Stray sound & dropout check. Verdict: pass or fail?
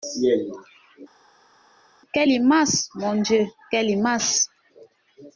pass